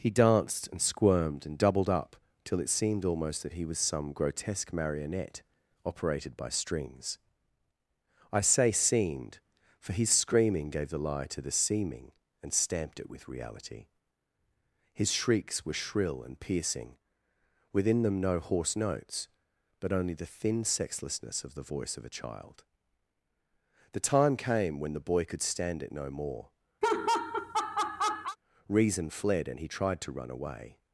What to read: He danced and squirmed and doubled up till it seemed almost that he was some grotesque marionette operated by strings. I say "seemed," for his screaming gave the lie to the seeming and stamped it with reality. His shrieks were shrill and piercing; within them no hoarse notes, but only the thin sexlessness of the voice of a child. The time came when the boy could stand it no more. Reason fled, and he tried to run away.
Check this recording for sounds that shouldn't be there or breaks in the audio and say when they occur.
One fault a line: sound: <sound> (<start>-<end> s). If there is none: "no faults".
sound: laugh (26.8-28.4 s)